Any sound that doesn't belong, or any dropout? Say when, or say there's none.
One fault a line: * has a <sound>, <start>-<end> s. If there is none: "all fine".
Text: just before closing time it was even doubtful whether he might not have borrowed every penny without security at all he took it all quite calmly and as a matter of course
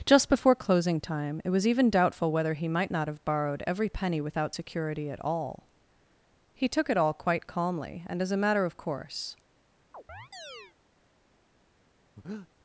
* has a chirp, 9.9-10.7 s
* has a breath, 12.2-12.5 s